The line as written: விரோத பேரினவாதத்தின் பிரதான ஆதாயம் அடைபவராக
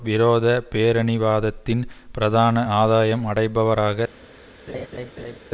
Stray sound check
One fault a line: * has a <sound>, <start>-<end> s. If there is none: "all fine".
* has a laugh, 4.7-5.4 s